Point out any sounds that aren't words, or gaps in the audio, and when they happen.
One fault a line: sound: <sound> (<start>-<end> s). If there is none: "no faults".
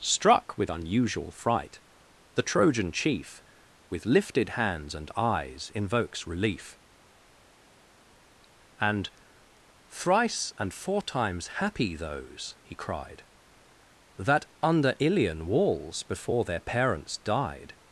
no faults